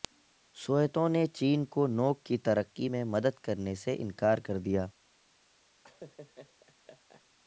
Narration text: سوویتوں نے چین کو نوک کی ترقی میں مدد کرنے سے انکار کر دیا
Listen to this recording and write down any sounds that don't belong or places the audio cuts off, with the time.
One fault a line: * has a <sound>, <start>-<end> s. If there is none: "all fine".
* has a laugh, 5.8-7.3 s